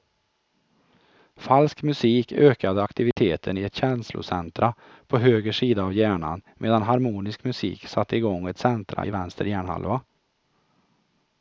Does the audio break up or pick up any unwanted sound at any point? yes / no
yes